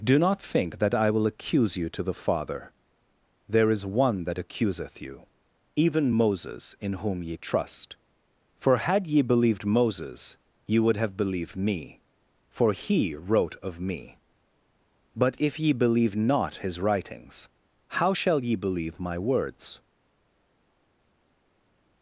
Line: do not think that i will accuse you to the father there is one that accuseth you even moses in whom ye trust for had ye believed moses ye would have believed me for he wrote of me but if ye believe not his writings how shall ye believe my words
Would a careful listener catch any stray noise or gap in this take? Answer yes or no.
no